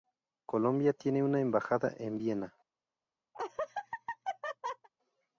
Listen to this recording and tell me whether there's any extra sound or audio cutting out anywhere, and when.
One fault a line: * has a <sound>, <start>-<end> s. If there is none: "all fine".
* has a laugh, 3.3-4.9 s